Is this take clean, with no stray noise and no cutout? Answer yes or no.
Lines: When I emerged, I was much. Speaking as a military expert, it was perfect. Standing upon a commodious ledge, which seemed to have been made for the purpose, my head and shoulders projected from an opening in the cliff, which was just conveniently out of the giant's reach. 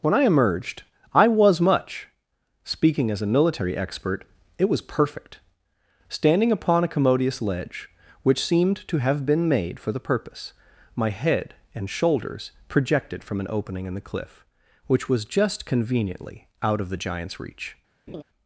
no